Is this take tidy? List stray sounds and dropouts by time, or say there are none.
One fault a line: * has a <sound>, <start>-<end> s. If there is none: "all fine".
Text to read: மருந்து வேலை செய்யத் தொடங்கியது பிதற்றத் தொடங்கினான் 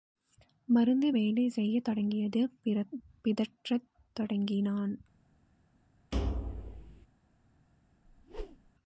* has a thud, 6.1-7.1 s
* has a whoosh, 8.0-8.7 s